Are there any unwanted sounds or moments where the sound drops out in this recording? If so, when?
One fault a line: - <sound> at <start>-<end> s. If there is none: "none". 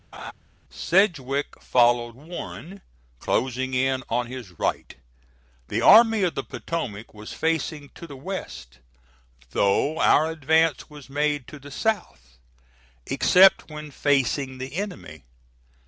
- laugh at 0.1-0.3 s